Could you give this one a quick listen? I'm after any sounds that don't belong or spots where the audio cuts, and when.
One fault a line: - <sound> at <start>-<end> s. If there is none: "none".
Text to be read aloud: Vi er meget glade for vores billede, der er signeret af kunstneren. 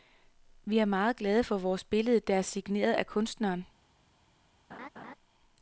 - laugh at 4.7-5.1 s